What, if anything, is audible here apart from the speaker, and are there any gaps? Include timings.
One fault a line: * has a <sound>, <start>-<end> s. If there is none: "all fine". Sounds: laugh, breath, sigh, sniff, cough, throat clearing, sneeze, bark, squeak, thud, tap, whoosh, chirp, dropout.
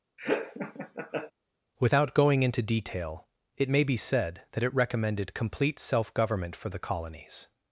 * has a laugh, 0.2-1.3 s